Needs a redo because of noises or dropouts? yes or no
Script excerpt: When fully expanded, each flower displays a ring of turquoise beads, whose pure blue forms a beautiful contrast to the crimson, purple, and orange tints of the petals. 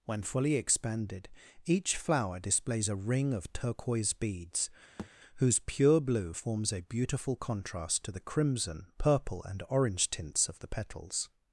yes